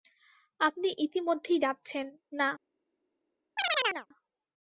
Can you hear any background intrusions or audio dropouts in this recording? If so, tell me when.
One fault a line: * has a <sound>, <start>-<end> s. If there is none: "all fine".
* has a chirp, 3.6-4.1 s